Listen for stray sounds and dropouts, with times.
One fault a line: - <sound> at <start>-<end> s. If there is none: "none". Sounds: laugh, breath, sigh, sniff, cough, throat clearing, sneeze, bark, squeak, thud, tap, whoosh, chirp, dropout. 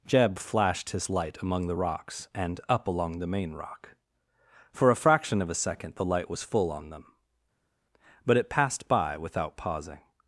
none